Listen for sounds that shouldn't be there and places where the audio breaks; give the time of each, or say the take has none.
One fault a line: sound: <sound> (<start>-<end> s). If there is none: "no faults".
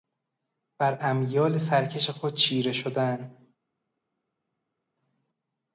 no faults